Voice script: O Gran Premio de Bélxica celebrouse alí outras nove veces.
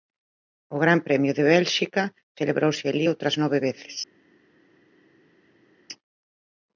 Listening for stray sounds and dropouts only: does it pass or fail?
pass